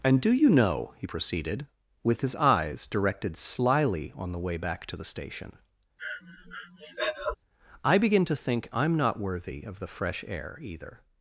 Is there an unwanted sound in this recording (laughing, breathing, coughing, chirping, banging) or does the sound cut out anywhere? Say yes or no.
yes